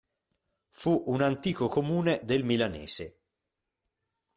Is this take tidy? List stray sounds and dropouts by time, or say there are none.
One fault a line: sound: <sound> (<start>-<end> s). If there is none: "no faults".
no faults